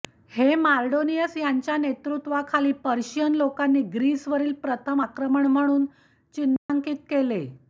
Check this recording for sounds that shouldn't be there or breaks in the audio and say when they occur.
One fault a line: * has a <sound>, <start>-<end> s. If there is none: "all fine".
* has a dropout, 6.6-6.7 s